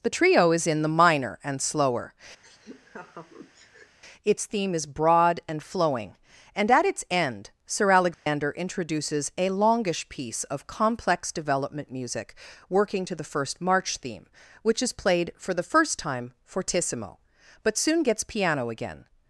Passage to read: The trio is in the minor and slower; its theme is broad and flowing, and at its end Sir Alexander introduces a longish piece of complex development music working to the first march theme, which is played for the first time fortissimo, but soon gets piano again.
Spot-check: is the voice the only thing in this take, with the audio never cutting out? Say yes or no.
no